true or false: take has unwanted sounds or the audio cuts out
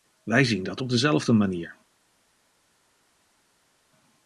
false